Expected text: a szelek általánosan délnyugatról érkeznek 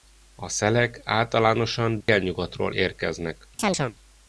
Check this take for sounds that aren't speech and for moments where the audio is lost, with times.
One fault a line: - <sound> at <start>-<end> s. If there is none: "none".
- dropout at 2.0-2.1 s
- chirp at 3.6-3.9 s